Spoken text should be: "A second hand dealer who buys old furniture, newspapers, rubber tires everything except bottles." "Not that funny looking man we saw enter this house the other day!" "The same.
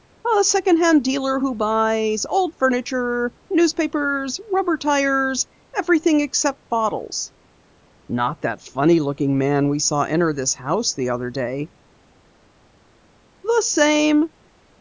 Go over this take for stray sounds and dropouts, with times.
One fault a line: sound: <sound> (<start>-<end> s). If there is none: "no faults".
no faults